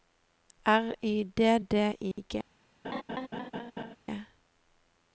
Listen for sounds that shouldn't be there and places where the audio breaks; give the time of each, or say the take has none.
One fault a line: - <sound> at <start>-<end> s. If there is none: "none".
- dropout at 2.1-2.2 s
- laugh at 2.8-4.0 s